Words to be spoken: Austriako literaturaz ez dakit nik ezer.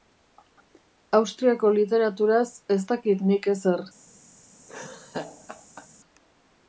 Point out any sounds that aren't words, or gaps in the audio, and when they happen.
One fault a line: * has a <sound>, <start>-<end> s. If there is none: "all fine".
* has a laugh, 4.7-5.9 s